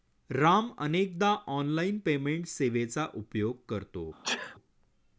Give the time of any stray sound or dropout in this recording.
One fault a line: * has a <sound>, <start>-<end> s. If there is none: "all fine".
* has a sneeze, 4.2-4.6 s